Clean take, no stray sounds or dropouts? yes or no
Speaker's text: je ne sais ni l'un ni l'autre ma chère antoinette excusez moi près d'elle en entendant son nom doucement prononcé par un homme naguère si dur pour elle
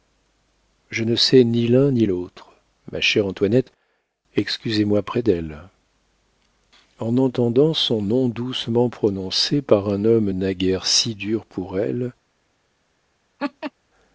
no